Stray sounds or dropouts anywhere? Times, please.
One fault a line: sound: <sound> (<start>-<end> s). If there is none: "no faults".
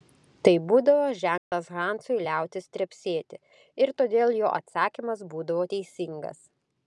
sound: dropout (1.4-1.5 s)